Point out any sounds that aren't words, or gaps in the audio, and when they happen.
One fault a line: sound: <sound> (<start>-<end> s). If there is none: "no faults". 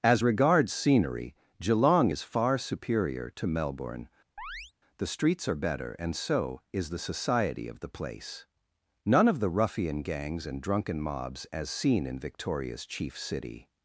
sound: chirp (4.4-4.7 s)